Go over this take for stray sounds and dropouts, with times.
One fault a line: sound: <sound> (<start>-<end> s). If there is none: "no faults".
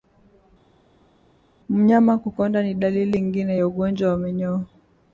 no faults